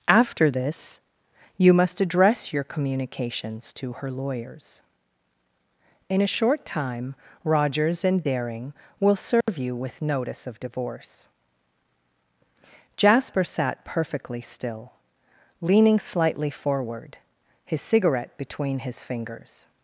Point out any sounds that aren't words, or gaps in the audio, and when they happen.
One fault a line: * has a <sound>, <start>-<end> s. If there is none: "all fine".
* has a dropout, 9.4-9.5 s